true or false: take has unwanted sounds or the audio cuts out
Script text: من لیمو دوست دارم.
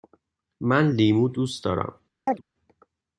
true